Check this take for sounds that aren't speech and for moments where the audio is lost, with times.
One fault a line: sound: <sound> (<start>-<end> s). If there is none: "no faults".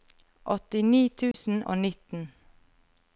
sound: dropout (1.3-1.3 s)